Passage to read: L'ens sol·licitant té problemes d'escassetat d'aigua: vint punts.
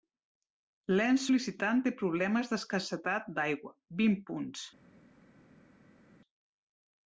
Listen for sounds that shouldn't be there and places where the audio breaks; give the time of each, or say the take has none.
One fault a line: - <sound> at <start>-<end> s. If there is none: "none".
none